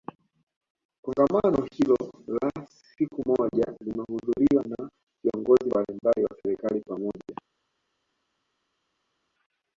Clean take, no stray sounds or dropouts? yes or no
yes